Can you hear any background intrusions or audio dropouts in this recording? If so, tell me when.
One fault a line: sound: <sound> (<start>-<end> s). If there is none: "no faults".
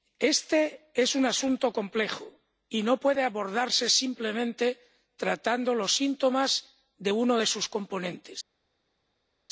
no faults